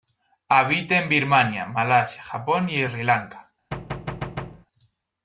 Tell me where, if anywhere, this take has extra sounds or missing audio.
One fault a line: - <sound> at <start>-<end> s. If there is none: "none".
- thud at 3.7-4.7 s